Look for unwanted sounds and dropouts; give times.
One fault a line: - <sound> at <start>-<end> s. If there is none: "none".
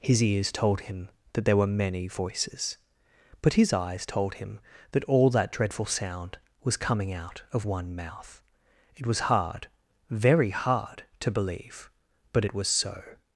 none